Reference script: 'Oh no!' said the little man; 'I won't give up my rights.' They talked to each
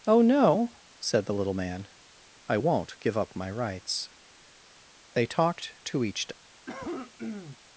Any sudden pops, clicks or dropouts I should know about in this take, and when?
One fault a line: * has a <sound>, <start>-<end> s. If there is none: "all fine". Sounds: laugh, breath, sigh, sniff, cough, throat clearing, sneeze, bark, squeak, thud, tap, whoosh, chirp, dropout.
* has a cough, 6.7-7.6 s